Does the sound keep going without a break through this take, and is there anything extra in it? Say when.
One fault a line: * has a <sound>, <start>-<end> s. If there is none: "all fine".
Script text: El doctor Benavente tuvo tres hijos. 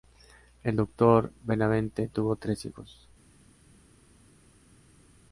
all fine